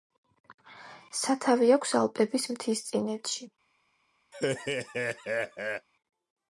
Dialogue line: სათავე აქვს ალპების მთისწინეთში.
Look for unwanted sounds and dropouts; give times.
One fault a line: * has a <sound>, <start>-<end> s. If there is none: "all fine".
* has a laugh, 4.3-5.9 s